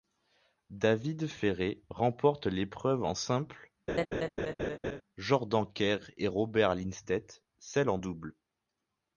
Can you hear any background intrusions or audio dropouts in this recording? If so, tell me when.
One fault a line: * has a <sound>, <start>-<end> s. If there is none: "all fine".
* has a laugh, 3.9-5.0 s